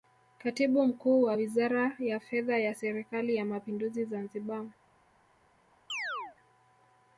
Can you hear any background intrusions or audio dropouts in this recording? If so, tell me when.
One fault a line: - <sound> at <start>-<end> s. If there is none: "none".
- chirp at 5.9-6.4 s